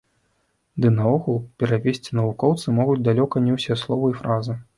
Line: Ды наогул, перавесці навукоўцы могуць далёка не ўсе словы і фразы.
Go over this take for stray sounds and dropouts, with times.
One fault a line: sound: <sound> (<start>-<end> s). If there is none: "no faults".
no faults